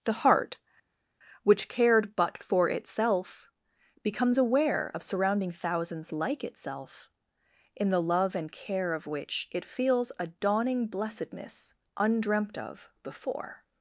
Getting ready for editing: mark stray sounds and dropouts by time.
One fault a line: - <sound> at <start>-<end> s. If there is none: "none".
none